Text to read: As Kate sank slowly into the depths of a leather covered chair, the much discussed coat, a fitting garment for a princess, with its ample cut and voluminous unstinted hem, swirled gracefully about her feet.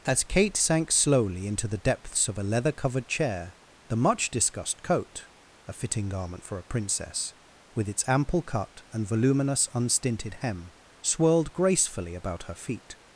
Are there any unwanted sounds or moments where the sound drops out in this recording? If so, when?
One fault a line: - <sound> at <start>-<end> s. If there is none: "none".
none